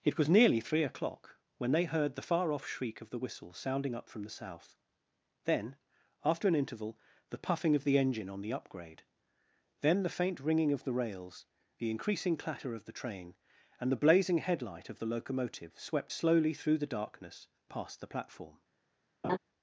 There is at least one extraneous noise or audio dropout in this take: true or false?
true